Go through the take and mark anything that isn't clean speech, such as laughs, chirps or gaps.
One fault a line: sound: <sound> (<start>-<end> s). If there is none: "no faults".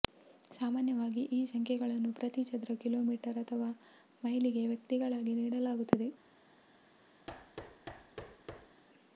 sound: thud (7.3-8.8 s)